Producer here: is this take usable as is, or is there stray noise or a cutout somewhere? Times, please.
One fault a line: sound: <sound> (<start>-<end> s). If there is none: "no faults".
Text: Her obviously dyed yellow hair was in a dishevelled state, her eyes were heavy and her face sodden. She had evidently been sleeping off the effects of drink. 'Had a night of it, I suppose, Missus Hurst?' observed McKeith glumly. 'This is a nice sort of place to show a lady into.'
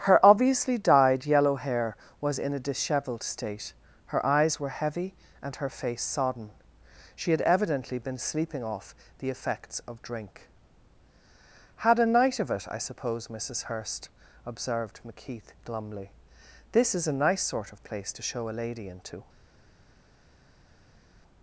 no faults